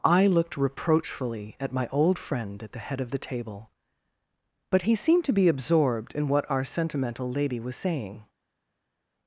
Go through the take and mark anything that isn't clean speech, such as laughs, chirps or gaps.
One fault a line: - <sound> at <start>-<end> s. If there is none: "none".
none